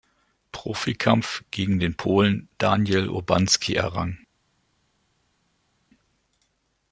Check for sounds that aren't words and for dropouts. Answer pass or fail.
pass